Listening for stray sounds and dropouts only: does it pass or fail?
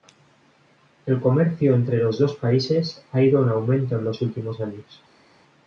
pass